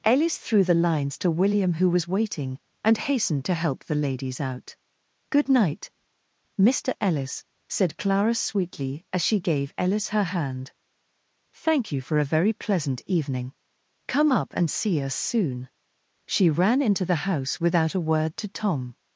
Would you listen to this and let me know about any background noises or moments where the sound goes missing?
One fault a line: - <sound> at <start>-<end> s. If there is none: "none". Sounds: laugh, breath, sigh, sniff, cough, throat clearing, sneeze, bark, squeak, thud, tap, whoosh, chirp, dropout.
none